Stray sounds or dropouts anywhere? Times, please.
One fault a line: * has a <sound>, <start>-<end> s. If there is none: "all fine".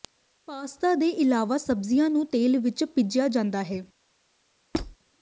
* has a squeak, 4.7-5.0 s